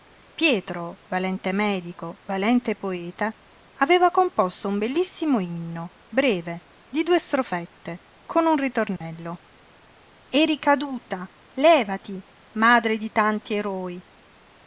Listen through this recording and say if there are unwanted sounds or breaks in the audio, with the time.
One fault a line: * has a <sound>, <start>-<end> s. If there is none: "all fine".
* has a dropout, 9.0-9.0 s